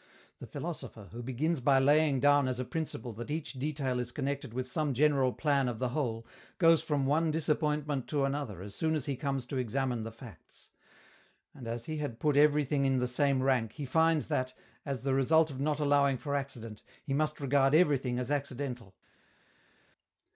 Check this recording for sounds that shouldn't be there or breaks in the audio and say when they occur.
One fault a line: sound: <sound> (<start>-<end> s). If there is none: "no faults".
no faults